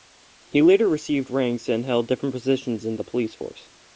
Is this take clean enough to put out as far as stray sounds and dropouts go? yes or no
yes